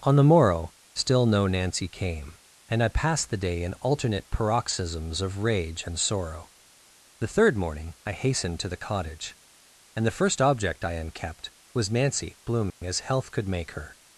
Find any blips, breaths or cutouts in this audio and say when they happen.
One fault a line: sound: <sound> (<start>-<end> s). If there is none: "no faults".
sound: dropout (12.7-12.8 s)